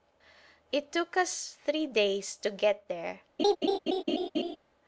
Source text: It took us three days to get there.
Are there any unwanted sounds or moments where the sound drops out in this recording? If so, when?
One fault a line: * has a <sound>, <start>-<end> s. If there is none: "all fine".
* has a laugh, 3.4-4.6 s